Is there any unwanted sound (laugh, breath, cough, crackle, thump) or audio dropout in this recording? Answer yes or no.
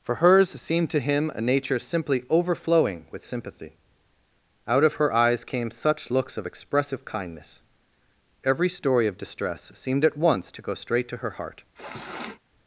yes